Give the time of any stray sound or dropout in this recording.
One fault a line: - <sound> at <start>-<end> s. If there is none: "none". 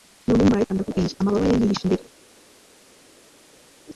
none